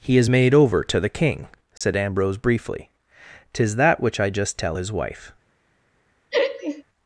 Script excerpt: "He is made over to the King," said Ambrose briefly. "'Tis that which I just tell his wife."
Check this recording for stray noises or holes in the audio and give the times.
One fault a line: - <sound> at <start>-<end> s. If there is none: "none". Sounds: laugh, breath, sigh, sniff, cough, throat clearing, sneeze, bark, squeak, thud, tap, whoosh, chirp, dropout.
- dropout at 1.8-1.8 s
- laugh at 6.3-6.8 s